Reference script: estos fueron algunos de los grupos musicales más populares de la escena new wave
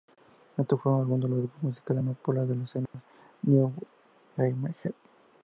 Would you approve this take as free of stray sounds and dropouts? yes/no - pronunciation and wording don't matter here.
no